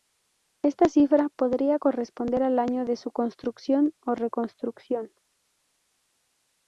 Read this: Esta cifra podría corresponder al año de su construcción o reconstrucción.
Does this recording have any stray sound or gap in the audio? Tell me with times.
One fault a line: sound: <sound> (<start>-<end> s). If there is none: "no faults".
no faults